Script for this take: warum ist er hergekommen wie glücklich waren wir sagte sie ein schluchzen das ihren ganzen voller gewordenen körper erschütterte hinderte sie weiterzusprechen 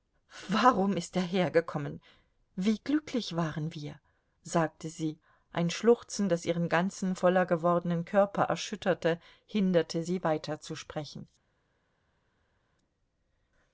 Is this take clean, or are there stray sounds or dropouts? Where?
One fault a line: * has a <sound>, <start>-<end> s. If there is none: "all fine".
all fine